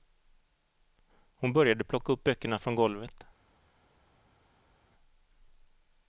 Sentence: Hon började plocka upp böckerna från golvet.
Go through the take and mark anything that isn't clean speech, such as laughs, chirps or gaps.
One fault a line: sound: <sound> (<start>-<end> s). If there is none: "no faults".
no faults